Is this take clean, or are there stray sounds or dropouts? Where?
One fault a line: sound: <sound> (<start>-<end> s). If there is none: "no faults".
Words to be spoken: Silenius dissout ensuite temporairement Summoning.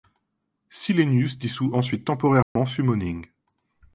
sound: dropout (2.4-2.6 s)